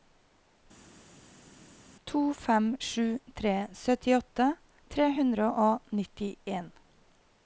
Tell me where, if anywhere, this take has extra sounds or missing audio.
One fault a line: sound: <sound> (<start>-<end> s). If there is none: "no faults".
no faults